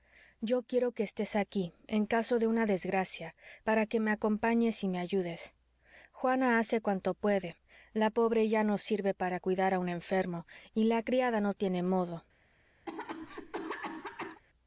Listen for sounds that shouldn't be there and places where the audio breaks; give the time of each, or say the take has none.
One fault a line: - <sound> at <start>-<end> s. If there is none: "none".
- cough at 12.9-14.4 s